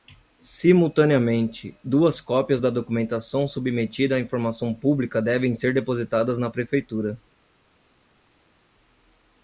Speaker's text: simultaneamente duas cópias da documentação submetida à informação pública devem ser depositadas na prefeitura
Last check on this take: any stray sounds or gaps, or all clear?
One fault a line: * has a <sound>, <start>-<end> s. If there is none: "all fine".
all fine